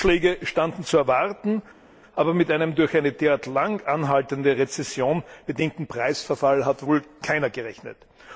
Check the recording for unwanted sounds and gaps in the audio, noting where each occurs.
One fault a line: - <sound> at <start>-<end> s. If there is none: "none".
none